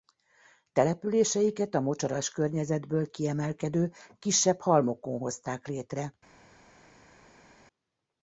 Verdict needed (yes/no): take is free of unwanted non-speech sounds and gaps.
yes